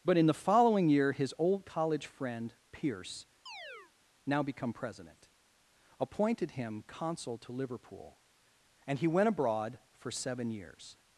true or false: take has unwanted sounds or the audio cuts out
true